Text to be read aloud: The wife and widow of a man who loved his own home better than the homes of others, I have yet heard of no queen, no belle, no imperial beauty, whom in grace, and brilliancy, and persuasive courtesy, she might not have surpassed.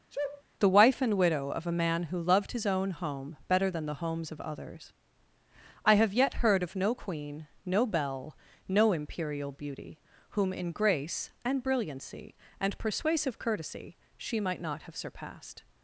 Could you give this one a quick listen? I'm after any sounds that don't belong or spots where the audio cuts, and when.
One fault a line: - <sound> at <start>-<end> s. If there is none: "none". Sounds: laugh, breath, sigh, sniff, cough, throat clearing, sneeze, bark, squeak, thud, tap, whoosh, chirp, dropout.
- sneeze at 0.1-0.4 s